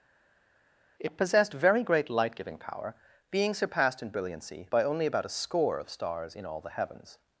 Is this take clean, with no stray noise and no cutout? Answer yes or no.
yes